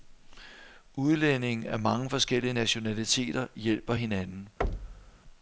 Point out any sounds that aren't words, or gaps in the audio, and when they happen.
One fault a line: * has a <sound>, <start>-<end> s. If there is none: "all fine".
* has a thud, 4.6-5.2 s